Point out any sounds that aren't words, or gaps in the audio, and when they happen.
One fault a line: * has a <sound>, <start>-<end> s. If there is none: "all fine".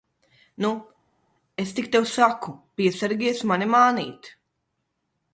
all fine